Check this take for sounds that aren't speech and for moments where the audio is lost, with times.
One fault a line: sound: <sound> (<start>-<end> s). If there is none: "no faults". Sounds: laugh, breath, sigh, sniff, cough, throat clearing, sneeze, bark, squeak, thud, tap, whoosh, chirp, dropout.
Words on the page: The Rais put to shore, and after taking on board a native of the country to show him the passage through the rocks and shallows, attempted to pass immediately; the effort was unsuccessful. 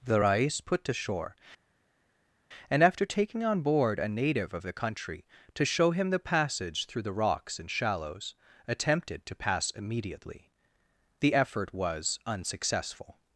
no faults